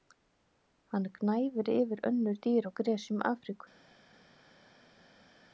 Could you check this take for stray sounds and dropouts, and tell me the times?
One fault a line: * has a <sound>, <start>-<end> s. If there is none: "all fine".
all fine